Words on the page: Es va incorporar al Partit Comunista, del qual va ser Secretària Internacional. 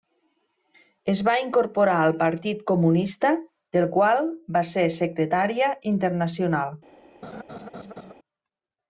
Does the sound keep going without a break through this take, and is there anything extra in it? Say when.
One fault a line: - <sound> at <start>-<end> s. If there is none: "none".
- laugh at 7.2-8.1 s